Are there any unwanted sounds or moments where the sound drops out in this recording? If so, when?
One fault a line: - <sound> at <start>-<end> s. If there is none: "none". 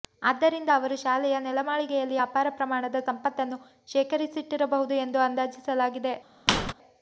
- squeak at 6.5-6.7 s